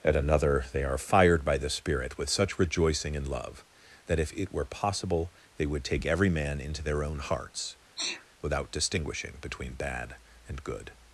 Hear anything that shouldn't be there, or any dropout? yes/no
yes